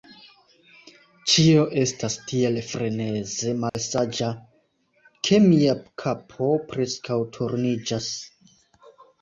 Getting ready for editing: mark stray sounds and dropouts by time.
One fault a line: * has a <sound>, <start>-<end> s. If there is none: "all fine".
* has a dropout, 3.7-3.7 s